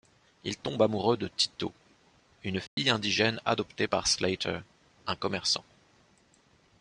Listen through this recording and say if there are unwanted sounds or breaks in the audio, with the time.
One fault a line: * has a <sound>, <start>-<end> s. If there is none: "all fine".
* has a dropout, 2.7-2.8 s